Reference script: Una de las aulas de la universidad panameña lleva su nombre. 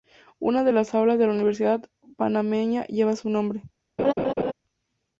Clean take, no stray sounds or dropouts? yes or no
no